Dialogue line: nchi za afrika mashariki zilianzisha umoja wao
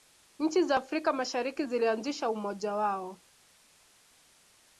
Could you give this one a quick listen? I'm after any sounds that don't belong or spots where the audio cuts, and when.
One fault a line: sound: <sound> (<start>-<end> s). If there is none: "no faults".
no faults